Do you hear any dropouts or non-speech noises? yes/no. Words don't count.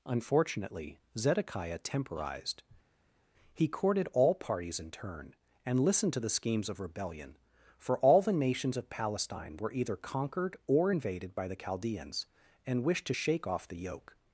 no